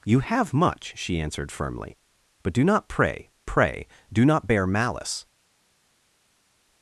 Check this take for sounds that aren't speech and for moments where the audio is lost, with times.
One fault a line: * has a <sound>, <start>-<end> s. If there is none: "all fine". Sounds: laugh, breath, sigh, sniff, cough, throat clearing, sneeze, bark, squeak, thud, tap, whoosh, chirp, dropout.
all fine